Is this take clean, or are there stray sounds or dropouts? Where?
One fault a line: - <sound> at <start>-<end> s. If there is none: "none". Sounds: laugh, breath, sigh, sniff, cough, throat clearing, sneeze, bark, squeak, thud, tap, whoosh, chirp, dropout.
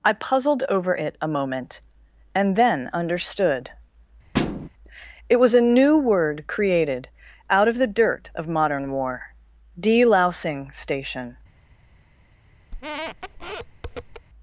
- thud at 4.3-4.7 s
- squeak at 12.7-14.3 s